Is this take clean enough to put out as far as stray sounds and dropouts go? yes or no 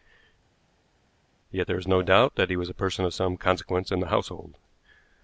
yes